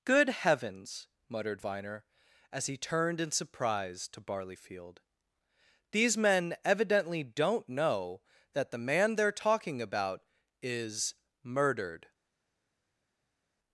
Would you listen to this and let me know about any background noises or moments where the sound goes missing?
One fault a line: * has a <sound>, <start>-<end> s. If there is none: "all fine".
all fine